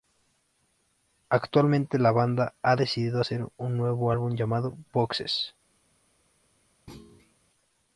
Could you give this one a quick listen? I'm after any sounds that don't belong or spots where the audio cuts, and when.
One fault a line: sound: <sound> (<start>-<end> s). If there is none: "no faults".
sound: thud (6.9-7.3 s)